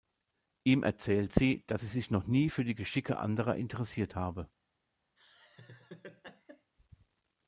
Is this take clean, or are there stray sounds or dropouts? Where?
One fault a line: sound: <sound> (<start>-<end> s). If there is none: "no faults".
sound: laugh (5.2-6.7 s)